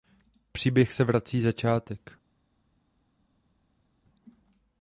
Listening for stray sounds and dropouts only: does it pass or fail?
pass